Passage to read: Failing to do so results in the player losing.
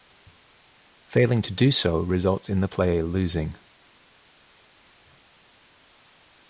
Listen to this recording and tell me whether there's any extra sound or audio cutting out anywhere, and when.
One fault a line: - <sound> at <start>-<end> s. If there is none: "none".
none